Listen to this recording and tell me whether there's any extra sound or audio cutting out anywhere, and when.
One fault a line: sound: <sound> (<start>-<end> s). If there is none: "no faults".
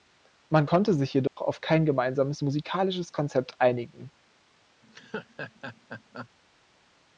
sound: dropout (1.3-1.4 s)
sound: laugh (4.8-6.3 s)